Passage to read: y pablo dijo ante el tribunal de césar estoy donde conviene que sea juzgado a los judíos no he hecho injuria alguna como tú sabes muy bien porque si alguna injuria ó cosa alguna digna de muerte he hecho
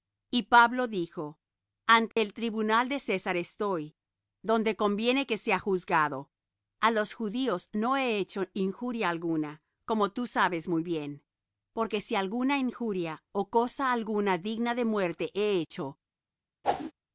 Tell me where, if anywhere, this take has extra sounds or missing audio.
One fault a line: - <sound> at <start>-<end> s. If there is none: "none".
- dropout at 2.1-2.2 s
- whoosh at 16.6-16.9 s